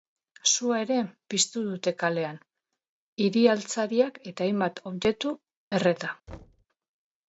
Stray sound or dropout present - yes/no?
yes